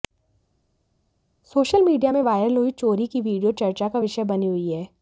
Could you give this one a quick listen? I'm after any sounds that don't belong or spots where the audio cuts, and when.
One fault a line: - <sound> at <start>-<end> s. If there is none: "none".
none